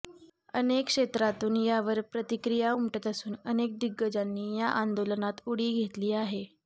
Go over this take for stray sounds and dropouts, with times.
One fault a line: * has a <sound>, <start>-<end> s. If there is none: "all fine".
all fine